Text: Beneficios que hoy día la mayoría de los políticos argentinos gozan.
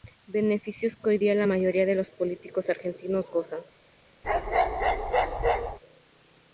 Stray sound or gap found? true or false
true